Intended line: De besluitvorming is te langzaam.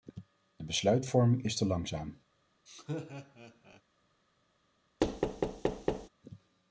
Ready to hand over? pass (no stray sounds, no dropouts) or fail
fail